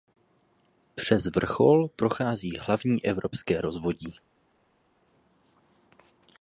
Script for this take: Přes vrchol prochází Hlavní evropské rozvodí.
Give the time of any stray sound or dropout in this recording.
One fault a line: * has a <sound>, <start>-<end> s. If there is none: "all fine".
all fine